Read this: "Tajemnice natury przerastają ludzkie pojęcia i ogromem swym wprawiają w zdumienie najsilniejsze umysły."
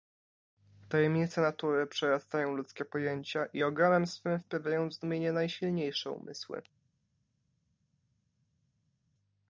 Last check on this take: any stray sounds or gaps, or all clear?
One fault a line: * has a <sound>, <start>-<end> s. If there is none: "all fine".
all fine